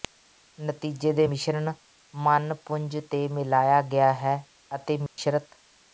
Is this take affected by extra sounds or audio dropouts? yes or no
yes